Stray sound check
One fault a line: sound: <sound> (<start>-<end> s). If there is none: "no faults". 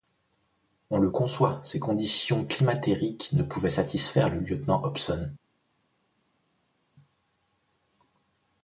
no faults